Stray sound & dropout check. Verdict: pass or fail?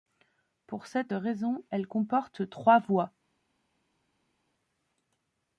pass